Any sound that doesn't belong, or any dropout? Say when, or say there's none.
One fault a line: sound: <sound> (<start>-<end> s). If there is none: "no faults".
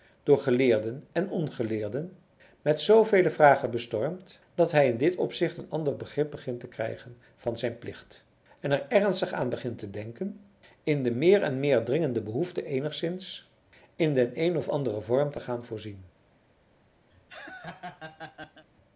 sound: laugh (17.1-18.7 s)